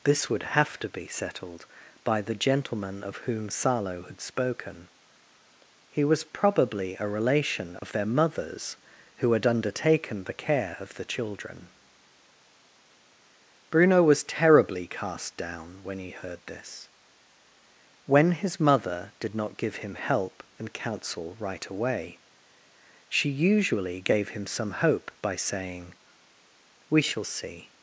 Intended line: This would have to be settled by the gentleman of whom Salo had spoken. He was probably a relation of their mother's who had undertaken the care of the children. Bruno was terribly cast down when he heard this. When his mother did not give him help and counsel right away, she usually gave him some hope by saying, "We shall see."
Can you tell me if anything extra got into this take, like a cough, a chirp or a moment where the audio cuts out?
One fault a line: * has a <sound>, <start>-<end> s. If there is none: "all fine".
* has a dropout, 7.8-7.8 s